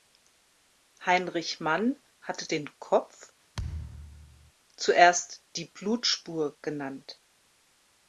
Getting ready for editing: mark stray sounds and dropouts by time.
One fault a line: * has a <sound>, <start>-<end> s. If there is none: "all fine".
* has a thud, 3.5-4.5 s